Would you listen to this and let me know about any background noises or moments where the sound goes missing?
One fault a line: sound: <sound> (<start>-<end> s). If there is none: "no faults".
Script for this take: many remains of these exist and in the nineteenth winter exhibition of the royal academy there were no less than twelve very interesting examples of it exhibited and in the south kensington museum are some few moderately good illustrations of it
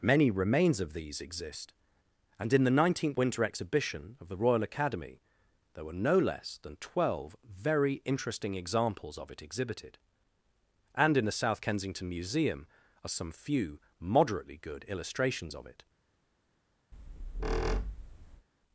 sound: squeak (16.9-18.5 s)